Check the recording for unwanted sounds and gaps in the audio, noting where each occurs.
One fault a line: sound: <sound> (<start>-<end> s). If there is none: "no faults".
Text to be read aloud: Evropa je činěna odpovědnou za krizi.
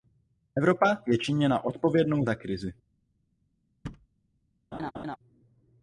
sound: thud (3.8-4.1 s)
sound: laugh (4.7-5.2 s)